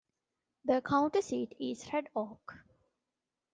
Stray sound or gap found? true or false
false